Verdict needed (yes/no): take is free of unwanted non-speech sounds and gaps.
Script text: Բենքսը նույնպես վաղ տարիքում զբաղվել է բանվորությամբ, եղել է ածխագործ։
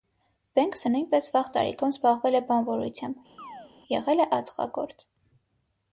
no